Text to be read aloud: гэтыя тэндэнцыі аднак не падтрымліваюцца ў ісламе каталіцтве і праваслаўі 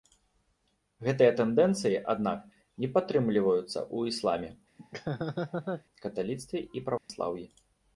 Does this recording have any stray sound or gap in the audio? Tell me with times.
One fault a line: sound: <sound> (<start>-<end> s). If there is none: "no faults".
sound: laugh (4.8-5.8 s)
sound: dropout (7.0-7.1 s)